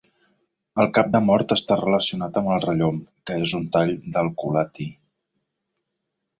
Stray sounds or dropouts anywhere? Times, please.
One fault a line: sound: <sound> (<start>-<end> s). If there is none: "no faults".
no faults